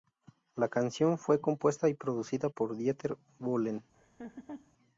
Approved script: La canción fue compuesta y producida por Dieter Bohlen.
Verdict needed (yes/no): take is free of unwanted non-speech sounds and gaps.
no